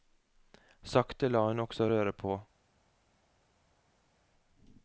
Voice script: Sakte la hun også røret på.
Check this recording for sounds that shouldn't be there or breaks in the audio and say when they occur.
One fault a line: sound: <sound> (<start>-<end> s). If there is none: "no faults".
no faults